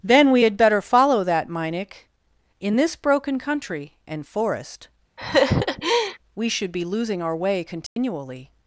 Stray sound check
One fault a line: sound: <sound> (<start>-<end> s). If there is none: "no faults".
sound: laugh (5.2-6.2 s)
sound: dropout (7.9-8.0 s)